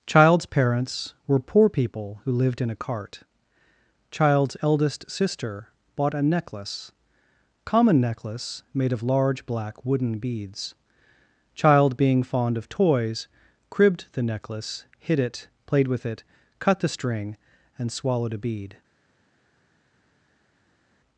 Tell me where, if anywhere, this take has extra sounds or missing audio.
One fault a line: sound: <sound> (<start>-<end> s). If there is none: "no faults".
no faults